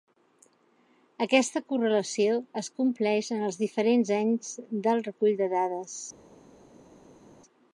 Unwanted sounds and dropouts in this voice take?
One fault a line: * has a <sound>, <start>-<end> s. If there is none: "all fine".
all fine